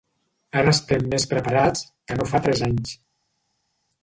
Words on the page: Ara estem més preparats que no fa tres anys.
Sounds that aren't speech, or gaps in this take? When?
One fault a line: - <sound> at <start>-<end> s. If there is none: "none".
none